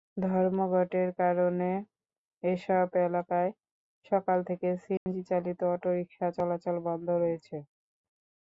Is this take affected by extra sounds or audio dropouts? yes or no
yes